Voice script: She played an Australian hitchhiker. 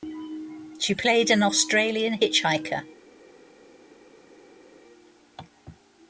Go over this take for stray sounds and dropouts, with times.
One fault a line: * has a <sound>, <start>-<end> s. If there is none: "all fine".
all fine